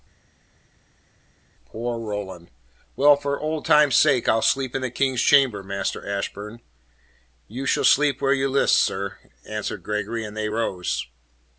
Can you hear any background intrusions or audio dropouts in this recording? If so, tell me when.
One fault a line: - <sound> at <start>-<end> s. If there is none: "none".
none